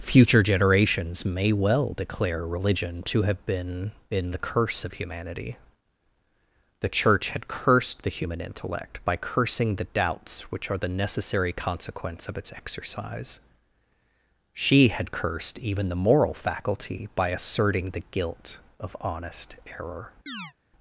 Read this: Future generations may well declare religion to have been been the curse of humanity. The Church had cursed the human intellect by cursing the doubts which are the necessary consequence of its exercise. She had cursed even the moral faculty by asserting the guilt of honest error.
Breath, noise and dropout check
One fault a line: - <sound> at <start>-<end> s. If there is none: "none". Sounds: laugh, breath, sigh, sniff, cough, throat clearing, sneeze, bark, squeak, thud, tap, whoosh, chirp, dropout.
- chirp at 20.3-20.5 s